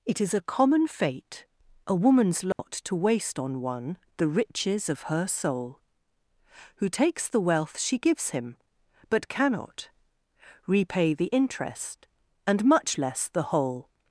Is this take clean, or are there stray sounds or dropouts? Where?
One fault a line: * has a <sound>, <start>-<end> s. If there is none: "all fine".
* has a dropout, 2.5-2.6 s